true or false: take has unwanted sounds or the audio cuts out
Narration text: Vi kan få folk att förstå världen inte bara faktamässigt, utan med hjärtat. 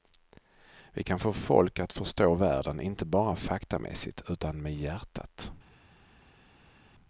false